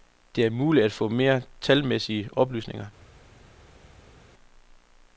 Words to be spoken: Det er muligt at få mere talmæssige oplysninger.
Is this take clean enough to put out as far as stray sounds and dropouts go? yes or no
yes